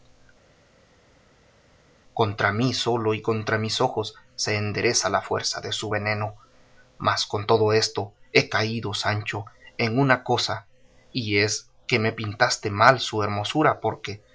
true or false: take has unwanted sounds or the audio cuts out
false